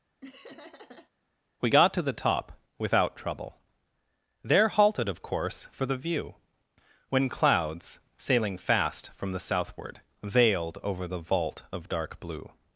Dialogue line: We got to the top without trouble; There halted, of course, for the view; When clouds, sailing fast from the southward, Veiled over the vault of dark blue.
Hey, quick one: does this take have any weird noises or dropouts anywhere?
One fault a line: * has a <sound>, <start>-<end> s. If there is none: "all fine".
* has a laugh, 0.2-1.1 s